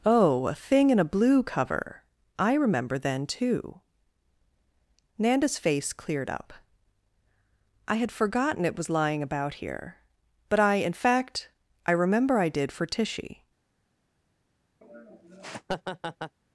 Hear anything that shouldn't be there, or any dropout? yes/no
yes